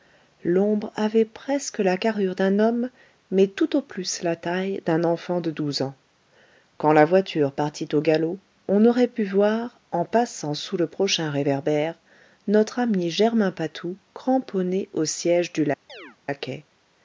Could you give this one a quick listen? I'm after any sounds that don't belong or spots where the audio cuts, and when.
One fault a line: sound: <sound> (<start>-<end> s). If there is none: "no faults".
sound: chirp (15.9-16.2 s)